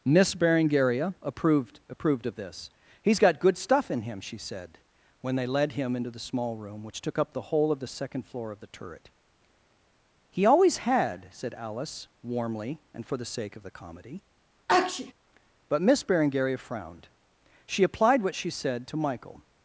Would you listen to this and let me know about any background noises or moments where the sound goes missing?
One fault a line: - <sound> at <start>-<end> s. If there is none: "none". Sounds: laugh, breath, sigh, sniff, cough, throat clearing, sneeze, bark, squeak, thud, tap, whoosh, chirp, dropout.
- sneeze at 14.7-15.1 s